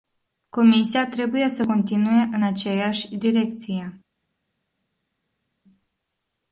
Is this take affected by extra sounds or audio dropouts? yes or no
no